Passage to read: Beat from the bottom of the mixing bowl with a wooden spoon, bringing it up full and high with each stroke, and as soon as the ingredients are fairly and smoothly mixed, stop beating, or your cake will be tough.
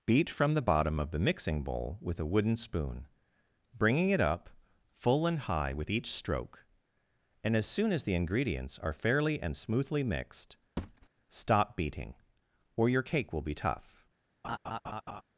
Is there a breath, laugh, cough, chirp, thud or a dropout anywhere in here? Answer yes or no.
yes